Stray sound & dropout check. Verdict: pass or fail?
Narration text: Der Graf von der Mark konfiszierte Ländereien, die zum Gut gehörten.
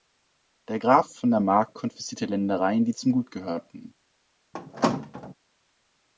fail